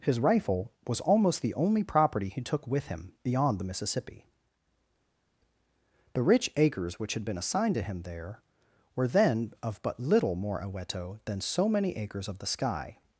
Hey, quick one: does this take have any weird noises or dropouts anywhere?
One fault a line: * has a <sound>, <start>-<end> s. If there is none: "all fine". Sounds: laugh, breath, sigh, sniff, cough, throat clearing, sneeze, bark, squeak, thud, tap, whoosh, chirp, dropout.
all fine